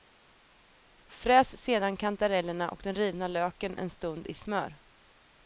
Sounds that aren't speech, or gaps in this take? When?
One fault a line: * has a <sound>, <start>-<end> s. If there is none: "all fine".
all fine